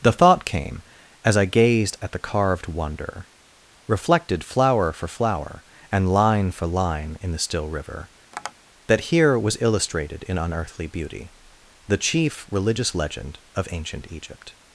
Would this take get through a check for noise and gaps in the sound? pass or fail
fail